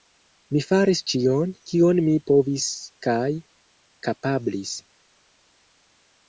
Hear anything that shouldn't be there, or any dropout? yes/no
no